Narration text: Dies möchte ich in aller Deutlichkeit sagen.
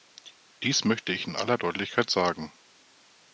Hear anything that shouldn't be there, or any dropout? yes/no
no